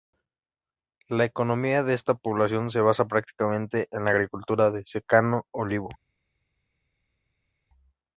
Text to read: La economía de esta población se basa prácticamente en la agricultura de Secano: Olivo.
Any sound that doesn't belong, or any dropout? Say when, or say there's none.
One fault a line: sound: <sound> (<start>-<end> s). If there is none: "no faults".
no faults